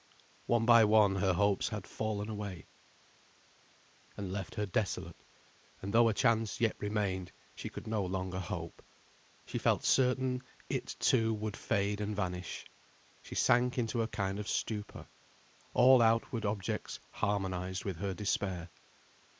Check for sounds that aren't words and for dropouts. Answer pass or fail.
pass